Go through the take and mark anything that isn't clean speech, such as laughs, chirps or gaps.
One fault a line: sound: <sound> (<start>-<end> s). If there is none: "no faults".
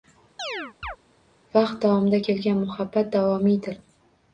sound: chirp (0.4-1.0 s)